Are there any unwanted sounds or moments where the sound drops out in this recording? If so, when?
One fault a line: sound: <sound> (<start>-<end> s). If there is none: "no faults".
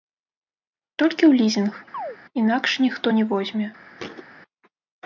sound: chirp (1.9-2.2 s)
sound: thud (4.0-4.3 s)